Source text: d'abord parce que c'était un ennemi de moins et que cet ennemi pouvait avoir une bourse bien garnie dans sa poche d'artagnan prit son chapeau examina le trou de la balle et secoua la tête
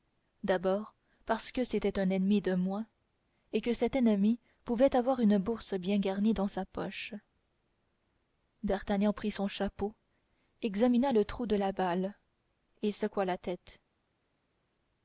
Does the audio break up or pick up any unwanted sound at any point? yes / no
no